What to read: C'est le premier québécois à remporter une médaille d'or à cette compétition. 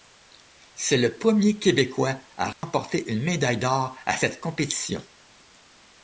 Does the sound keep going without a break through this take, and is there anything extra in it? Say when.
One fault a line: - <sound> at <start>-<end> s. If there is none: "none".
- dropout at 2.5-2.6 s